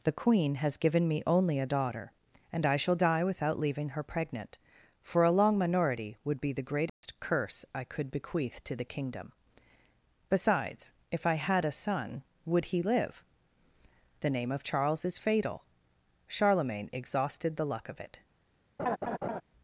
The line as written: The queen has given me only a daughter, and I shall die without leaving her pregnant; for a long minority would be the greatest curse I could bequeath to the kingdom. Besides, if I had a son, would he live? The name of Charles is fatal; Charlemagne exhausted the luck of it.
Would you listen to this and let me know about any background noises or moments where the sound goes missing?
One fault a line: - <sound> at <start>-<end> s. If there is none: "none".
- dropout at 6.9-7.0 s
- laugh at 18.8-19.4 s